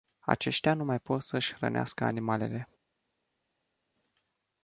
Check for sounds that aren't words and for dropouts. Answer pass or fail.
pass